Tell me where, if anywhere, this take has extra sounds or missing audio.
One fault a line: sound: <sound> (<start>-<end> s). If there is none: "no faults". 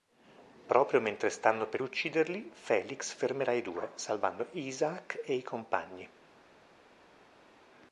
no faults